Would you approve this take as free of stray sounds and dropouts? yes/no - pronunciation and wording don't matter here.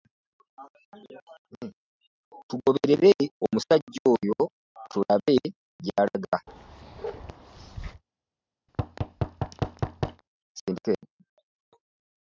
no